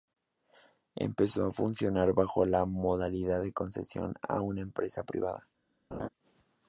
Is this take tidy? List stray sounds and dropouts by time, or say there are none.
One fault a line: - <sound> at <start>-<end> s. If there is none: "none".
- laugh at 5.9-6.1 s